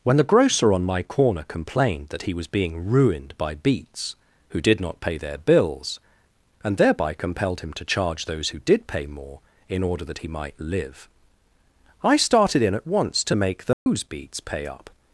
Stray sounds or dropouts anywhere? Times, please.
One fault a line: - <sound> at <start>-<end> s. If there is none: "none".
- dropout at 13.7-13.9 s